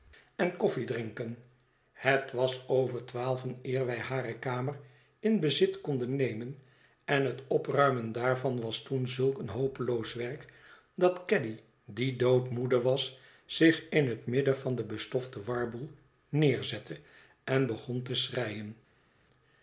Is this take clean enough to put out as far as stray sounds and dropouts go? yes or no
yes